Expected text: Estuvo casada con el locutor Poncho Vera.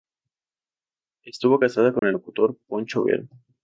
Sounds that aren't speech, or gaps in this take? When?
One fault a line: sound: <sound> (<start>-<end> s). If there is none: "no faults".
sound: dropout (2.0-2.0 s)